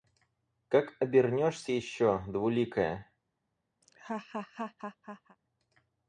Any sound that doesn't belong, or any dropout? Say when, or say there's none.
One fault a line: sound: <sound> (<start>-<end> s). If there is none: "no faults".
sound: laugh (3.8-5.4 s)